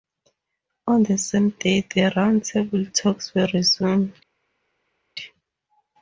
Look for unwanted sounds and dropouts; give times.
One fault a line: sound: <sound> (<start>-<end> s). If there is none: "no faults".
no faults